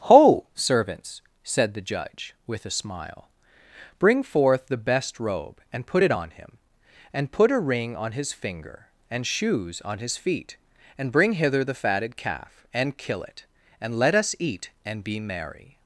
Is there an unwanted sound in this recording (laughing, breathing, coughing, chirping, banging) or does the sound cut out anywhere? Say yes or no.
no